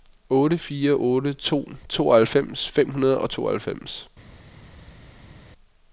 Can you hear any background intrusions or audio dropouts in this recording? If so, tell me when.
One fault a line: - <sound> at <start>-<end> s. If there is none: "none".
none